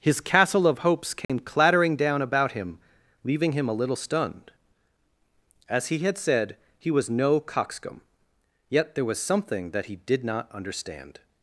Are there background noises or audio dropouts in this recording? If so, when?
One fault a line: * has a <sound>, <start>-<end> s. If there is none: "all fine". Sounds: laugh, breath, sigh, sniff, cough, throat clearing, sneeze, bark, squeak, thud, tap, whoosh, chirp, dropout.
* has a dropout, 1.2-1.3 s